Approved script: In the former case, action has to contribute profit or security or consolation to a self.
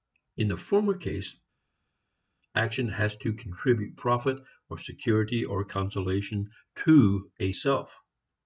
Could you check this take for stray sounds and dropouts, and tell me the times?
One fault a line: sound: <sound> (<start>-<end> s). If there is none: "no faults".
no faults